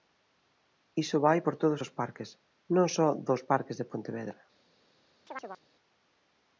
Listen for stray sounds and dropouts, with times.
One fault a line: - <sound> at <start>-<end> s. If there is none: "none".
- chirp at 5.3-5.6 s